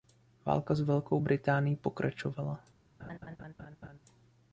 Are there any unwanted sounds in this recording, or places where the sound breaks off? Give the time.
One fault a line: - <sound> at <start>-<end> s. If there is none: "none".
- laugh at 3.0-4.0 s